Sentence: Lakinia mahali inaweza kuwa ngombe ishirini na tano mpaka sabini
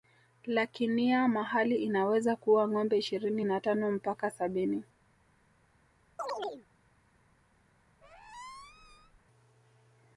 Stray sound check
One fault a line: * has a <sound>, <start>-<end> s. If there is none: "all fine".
* has a chirp, 6.2-6.7 s
* has a squeak, 8.0-9.2 s